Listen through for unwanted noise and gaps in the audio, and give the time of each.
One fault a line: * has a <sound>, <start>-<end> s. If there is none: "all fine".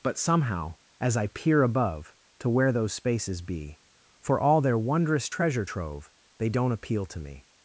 all fine